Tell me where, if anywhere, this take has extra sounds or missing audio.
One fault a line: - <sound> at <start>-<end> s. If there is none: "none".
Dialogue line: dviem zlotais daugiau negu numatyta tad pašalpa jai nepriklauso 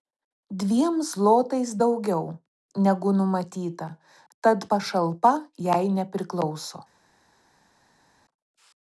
none